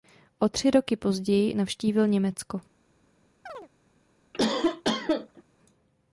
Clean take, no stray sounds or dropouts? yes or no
no